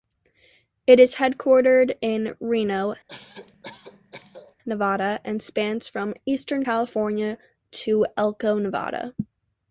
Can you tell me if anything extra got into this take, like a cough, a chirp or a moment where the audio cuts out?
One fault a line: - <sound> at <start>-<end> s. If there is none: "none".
- cough at 3.1-4.6 s